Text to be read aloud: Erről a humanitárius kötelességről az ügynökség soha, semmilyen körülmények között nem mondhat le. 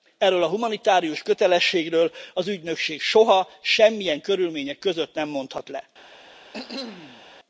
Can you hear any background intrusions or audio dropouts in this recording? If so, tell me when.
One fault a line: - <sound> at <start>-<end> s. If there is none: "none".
- cough at 6.5-7.2 s